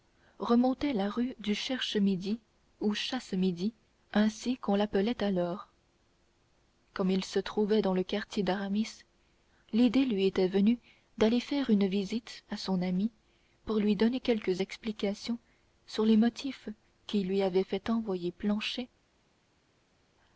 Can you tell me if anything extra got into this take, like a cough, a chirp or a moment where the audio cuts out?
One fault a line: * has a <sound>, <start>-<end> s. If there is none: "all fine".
all fine